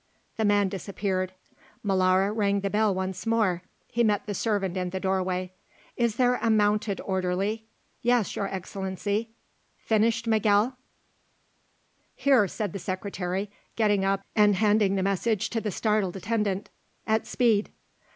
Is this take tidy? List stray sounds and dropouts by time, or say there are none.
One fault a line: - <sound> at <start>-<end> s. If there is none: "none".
none